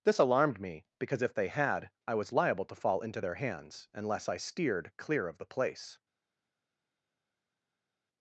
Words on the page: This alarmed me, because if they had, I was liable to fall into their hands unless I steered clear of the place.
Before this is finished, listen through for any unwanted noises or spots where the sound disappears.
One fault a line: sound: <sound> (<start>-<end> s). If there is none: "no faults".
no faults